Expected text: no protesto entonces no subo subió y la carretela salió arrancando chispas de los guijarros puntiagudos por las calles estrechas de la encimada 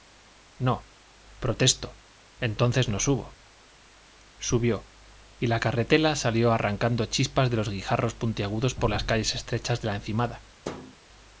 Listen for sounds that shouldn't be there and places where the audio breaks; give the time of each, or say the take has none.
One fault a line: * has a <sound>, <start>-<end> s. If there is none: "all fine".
* has a thud, 10.6-11.0 s